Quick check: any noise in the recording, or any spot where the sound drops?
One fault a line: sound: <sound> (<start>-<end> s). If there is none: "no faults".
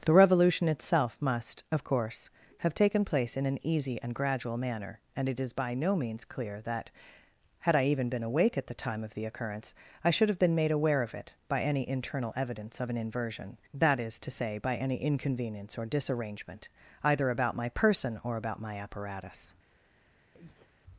sound: breath (20.3-20.7 s)